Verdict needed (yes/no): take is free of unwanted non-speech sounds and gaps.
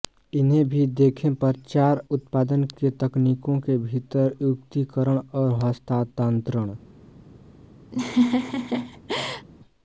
no